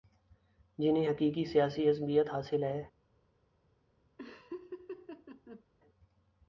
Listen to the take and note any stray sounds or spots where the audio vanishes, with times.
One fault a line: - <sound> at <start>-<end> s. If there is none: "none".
- laugh at 4.2-5.6 s